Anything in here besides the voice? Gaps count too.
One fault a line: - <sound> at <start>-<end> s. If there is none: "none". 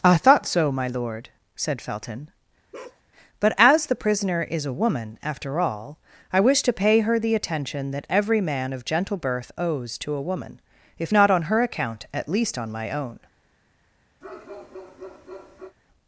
- bark at 2.7-3.0 s
- bark at 14.2-15.8 s